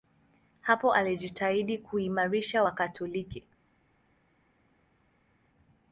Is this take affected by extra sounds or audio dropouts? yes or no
no